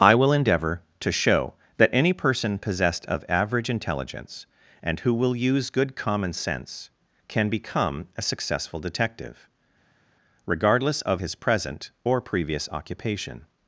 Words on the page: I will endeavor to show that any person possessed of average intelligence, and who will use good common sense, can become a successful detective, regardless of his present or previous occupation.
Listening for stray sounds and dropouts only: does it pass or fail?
pass